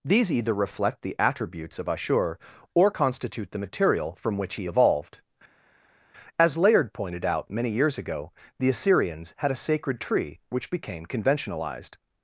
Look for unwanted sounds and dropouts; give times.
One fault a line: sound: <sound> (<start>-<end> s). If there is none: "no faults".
no faults